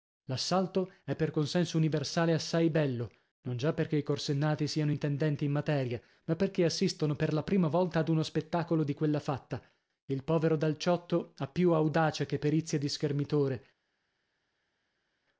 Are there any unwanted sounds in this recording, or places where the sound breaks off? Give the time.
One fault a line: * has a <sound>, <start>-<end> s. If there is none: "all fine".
all fine